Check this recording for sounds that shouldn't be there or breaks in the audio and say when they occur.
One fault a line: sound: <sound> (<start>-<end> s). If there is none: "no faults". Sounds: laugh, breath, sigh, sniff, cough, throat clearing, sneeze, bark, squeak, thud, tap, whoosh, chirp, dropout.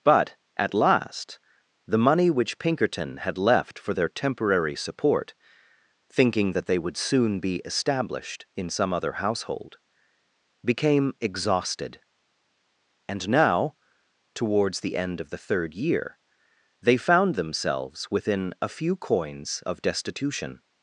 no faults